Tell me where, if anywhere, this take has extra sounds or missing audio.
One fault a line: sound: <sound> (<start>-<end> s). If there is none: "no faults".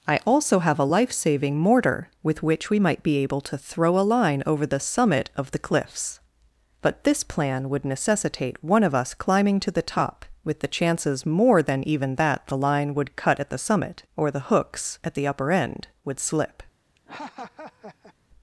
sound: laugh (17.0-18.1 s)